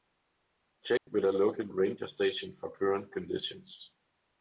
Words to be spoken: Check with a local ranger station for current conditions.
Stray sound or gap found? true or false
true